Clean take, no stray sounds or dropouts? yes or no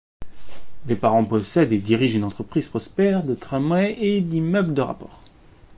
yes